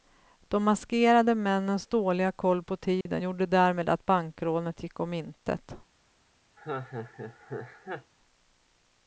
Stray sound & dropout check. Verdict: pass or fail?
fail